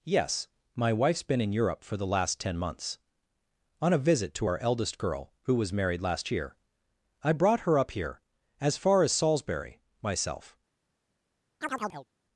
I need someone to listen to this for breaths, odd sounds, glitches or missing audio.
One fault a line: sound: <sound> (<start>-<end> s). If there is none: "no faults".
sound: chirp (11.6-12.1 s)